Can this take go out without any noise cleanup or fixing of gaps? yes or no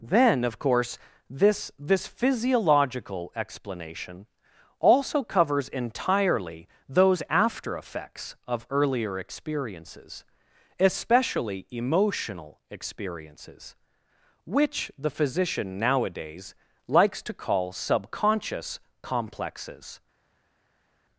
yes